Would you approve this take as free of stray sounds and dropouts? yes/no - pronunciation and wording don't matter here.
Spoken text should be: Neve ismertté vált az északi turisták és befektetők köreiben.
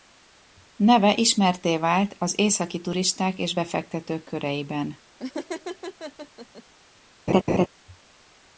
no